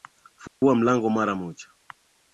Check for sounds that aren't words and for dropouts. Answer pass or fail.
fail